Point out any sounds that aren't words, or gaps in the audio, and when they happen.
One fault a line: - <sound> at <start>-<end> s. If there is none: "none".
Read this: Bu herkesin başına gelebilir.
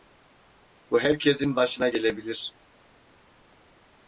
none